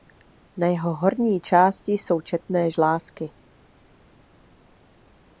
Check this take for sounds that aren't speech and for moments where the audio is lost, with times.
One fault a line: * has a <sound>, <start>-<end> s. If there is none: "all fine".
all fine